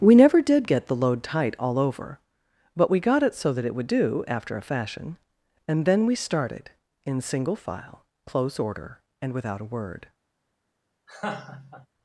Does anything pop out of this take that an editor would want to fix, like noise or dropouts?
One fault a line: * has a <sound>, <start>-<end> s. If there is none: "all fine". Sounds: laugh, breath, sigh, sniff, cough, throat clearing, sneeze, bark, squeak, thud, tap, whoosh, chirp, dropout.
* has a laugh, 11.1-11.9 s